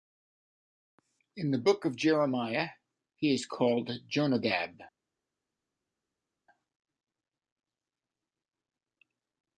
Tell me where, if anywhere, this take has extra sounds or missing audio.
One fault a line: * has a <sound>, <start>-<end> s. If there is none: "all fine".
all fine